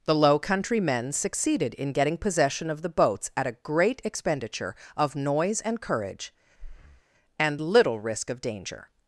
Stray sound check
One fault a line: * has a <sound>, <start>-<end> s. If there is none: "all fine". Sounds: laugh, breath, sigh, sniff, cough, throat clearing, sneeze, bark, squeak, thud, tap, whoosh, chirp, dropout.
* has a breath, 6.6-7.0 s